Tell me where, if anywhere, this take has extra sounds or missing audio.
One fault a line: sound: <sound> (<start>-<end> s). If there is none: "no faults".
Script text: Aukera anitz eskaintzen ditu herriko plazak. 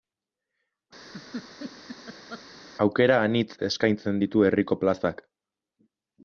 sound: laugh (1.0-2.5 s)